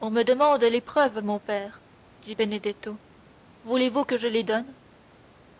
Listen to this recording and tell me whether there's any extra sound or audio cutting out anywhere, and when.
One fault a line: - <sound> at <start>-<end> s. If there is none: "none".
none